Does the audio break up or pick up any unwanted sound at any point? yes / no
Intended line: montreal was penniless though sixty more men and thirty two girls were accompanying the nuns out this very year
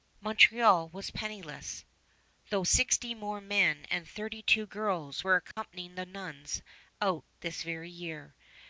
yes